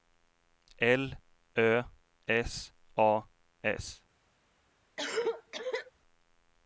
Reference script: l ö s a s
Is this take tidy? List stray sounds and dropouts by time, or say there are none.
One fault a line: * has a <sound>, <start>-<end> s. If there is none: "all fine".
* has a cough, 5.0-5.9 s